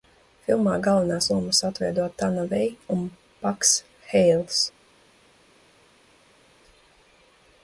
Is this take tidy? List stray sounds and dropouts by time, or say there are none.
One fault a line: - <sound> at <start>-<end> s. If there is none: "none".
none